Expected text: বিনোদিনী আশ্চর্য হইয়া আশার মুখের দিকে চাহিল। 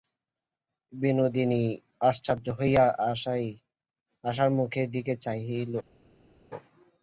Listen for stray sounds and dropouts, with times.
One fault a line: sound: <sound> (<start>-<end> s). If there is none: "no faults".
no faults